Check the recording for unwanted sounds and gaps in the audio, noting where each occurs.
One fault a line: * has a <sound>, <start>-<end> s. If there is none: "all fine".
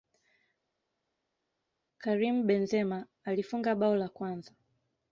all fine